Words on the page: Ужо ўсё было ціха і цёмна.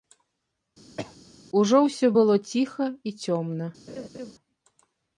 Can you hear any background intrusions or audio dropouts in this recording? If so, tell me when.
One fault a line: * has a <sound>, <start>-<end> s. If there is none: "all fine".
* has a cough, 1.0-1.2 s
* has a laugh, 3.9-4.3 s